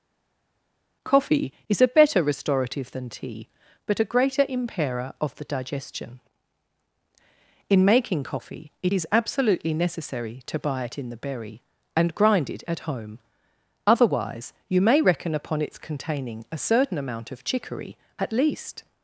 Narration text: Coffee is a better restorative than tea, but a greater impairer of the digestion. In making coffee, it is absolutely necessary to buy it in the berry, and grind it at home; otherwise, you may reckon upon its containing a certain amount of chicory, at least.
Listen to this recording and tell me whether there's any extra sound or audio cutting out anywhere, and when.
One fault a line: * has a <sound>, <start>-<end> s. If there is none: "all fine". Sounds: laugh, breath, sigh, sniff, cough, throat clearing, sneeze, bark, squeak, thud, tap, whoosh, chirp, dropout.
all fine